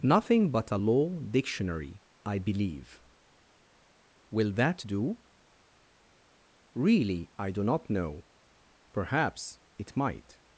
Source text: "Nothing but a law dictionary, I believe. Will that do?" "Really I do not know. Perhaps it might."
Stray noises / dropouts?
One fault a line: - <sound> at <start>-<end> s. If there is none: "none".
none